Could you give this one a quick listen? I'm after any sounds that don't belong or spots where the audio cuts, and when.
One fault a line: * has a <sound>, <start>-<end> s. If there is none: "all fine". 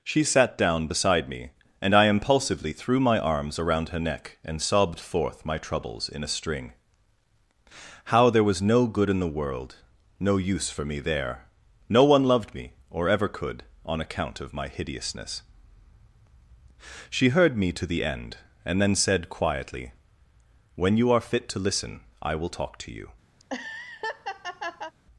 * has a laugh, 23.4-24.9 s